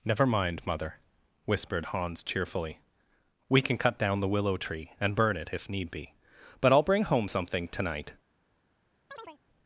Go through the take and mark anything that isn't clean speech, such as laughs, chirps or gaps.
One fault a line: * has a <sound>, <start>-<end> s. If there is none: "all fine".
* has a chirp, 9.1-9.4 s